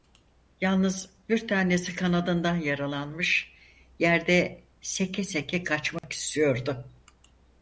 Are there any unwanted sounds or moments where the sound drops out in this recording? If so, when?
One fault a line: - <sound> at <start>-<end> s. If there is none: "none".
- dropout at 6.0-6.0 s